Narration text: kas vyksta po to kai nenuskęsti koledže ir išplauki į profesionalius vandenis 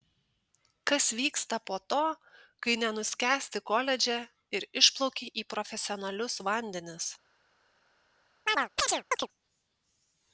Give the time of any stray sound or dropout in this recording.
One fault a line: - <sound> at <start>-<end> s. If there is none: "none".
- chirp at 8.5-9.3 s